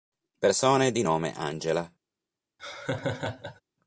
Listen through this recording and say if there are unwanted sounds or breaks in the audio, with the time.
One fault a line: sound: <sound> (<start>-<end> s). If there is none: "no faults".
sound: laugh (2.6-3.6 s)